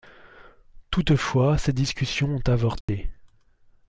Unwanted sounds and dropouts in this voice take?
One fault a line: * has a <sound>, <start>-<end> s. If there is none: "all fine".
* has a dropout, 2.8-2.9 s